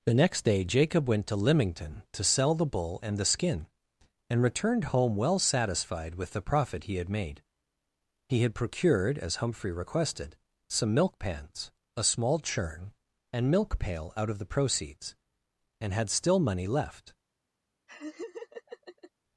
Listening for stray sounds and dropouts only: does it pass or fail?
fail